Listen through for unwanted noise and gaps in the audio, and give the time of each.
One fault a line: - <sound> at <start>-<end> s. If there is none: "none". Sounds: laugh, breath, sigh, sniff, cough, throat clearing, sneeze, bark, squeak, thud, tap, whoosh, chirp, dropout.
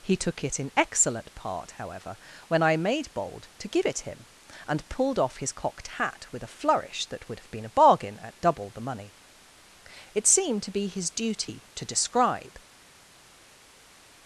none